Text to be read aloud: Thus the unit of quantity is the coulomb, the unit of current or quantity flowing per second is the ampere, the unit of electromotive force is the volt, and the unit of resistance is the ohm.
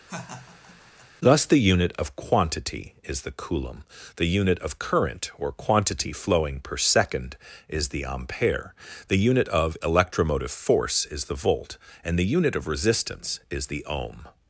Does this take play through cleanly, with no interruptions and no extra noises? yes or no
no